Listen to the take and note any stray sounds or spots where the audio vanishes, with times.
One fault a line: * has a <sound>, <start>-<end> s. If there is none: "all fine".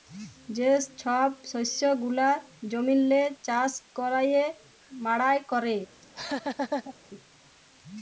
* has a laugh, 6.0-6.9 s